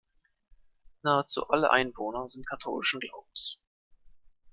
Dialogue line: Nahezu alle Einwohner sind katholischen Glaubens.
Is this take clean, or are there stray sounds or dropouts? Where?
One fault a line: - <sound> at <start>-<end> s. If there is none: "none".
none